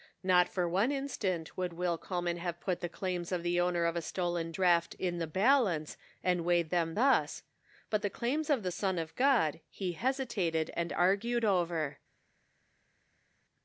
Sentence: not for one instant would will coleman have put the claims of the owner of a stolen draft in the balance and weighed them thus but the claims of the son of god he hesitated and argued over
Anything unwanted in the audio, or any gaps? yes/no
no